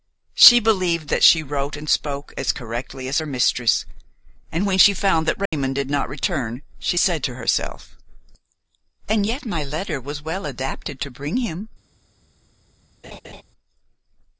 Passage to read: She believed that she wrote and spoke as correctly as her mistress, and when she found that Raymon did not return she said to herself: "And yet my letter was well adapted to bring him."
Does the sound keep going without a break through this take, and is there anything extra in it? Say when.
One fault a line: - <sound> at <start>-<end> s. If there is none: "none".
- dropout at 5.5-5.5 s
- laugh at 13.0-13.4 s